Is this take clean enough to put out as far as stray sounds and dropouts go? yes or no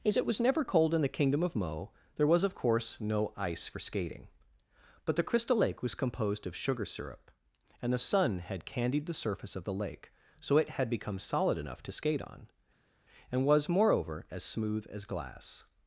yes